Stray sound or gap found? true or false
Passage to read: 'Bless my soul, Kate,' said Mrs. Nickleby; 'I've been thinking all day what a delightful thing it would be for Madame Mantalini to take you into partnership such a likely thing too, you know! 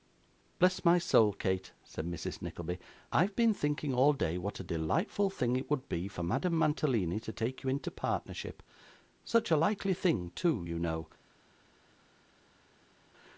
false